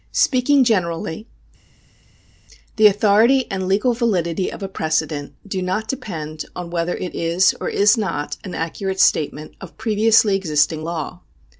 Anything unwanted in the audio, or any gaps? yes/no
no